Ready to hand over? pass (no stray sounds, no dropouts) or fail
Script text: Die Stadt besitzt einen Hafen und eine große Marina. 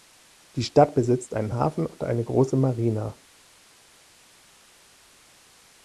pass